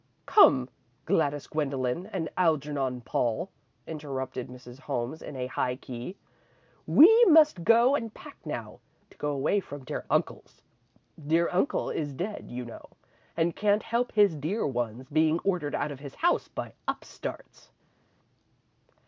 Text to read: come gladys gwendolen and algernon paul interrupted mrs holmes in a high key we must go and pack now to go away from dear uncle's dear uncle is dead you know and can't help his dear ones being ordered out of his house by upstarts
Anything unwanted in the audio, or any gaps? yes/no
no